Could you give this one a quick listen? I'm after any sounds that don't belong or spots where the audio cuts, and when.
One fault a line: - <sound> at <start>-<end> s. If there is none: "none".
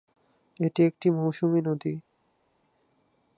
none